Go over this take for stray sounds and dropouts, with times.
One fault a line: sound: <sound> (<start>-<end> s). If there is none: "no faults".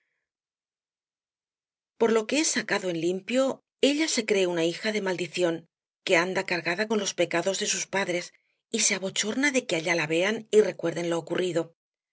no faults